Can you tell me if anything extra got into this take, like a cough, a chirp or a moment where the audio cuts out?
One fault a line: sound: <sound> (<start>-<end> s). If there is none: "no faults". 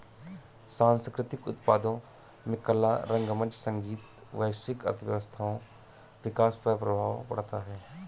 no faults